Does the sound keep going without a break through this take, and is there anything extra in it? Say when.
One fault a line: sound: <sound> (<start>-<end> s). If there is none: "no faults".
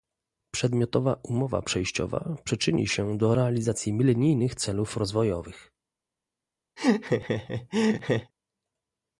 sound: laugh (6.8-8.3 s)